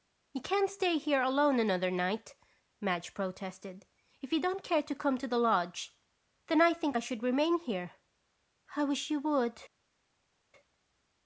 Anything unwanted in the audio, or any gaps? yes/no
no